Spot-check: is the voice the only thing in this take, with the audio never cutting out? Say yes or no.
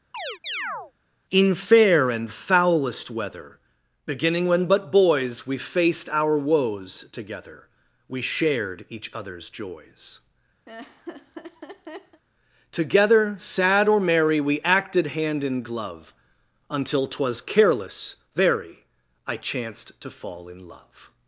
no